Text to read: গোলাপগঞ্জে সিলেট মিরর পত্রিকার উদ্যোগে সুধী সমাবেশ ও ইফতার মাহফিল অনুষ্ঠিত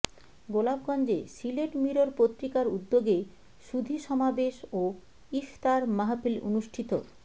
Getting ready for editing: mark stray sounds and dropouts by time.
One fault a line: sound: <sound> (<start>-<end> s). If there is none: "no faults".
no faults